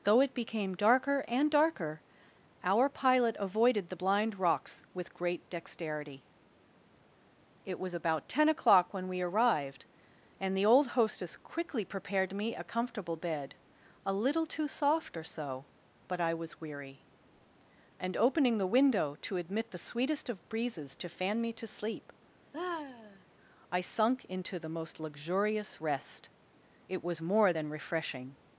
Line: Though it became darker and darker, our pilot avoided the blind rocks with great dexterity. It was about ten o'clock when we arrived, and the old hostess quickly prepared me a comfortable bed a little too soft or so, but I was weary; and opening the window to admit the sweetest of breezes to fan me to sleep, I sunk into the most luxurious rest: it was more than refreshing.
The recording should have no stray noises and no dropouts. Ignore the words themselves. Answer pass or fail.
fail